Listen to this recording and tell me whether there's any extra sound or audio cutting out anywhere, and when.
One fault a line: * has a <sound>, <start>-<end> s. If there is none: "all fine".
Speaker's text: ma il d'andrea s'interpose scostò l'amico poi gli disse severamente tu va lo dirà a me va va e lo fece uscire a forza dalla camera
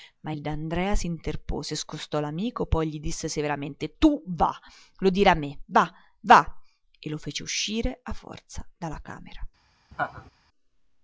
* has a laugh, 9.9-10.3 s